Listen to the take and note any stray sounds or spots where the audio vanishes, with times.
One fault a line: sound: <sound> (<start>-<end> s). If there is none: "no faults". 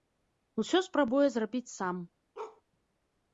sound: bark (2.3-2.6 s)